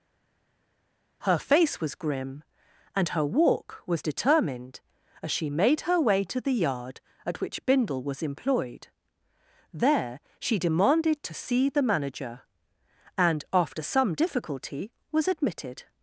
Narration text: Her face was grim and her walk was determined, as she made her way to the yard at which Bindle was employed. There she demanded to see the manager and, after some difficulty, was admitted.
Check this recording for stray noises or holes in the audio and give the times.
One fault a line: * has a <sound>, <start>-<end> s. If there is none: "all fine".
all fine